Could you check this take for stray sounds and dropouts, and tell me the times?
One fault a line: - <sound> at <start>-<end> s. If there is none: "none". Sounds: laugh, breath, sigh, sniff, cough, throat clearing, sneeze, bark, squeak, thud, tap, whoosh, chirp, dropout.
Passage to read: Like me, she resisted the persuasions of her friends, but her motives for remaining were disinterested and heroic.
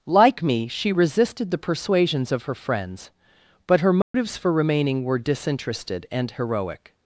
- dropout at 4.0-4.1 s